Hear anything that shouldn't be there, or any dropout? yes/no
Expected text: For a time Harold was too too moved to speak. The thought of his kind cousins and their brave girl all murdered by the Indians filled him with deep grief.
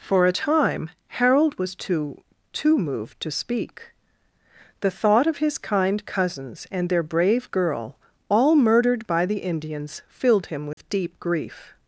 yes